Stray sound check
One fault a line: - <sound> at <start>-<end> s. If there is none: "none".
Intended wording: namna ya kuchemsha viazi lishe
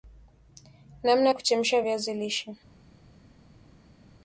none